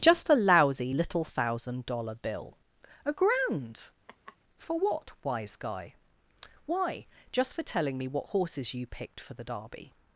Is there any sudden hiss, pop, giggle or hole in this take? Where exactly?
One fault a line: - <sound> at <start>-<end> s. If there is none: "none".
- laugh at 4.1-4.4 s